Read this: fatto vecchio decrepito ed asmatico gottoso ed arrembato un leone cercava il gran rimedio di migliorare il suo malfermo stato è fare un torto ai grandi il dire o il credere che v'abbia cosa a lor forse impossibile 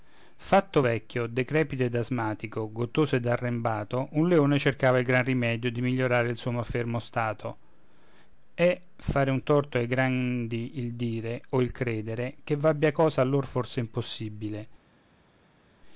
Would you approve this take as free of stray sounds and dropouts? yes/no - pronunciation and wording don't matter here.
yes